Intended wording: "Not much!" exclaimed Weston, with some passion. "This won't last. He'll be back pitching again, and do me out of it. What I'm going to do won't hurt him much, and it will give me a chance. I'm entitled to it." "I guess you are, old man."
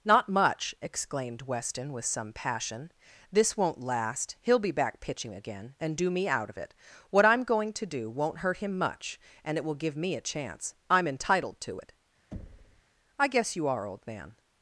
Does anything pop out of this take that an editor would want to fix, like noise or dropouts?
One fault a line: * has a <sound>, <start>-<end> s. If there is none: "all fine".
* has a thud, 12.3-12.8 s